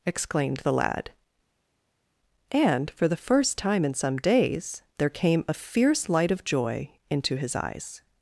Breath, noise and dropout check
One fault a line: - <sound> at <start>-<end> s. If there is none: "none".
none